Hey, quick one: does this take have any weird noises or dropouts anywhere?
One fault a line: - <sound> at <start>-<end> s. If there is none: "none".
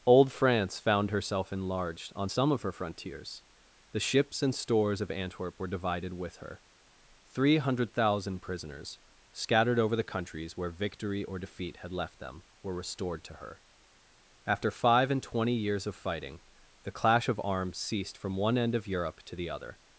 none